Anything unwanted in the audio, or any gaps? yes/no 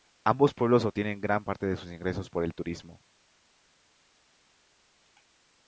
no